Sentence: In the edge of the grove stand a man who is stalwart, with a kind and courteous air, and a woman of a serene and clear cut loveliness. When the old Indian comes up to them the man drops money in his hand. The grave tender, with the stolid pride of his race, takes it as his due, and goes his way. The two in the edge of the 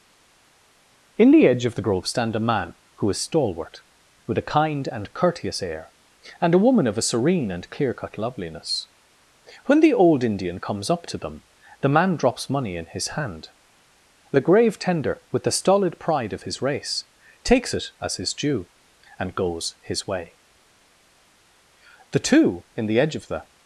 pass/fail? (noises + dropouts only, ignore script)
pass